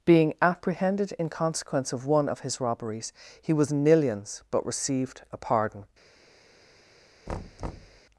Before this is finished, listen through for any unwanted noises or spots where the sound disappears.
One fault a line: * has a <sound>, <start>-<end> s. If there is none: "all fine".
* has a thud, 7.3-8.0 s